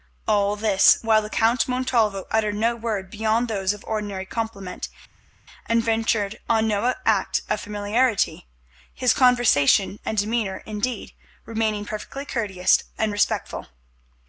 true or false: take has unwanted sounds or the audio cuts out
false